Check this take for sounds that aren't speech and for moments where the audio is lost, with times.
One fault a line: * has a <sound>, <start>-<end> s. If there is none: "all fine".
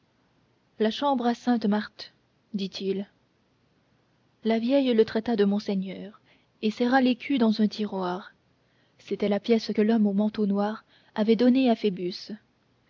all fine